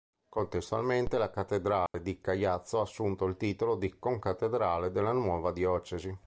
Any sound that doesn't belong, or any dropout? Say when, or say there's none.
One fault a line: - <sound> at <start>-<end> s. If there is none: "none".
- dropout at 1.9-1.9 s